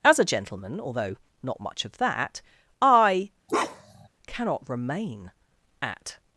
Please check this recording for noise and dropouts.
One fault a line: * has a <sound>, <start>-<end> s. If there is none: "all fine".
* has a bark, 3.5-4.1 s